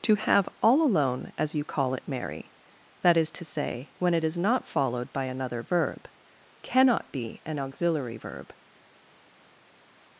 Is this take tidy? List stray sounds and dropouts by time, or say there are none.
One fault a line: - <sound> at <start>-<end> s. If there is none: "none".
none